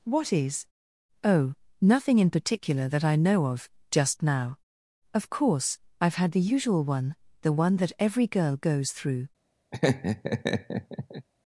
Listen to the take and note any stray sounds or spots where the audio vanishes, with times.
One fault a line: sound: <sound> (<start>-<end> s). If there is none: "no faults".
sound: laugh (9.7-11.3 s)